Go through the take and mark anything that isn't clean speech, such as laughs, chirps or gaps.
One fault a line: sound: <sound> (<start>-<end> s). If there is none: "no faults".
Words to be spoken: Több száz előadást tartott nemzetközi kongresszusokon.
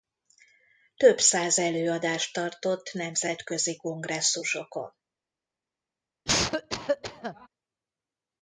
sound: cough (6.3-7.5 s)